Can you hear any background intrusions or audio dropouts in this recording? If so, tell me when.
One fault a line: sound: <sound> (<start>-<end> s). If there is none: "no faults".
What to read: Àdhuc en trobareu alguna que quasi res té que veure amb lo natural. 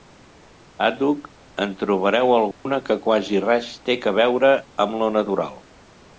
sound: dropout (2.5-2.7 s)